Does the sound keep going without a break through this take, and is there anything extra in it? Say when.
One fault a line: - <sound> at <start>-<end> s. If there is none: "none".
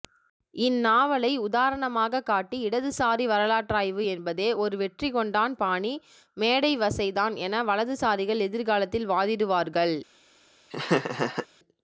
- laugh at 10.7-11.5 s